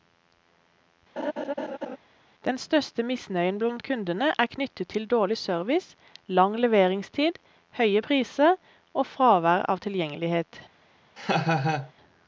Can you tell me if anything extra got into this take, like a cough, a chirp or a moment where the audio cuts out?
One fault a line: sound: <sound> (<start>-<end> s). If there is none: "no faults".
sound: laugh (1.2-2.0 s)
sound: laugh (11.2-11.9 s)